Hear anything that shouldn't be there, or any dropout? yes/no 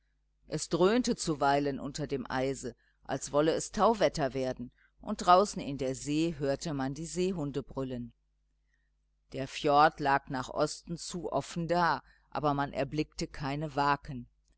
no